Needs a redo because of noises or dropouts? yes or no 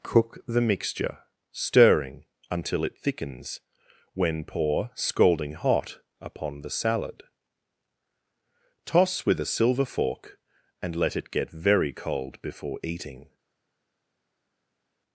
no